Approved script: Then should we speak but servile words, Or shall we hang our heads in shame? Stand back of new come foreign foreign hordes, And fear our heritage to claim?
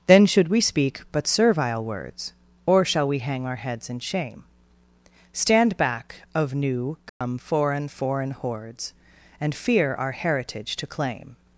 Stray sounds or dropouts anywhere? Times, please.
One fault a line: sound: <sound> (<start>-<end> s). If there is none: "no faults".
sound: dropout (7.1-7.2 s)